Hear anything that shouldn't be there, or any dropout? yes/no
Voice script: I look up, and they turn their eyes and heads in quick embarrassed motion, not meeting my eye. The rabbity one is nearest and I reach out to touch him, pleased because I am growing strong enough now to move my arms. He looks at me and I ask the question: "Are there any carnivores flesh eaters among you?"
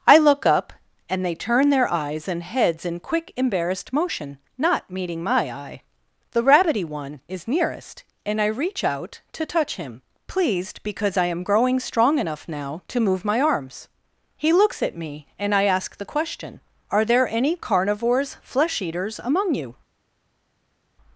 no